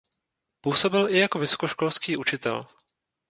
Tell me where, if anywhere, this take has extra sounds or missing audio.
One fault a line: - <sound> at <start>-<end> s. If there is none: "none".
none